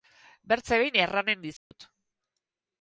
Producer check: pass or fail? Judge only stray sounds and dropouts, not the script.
fail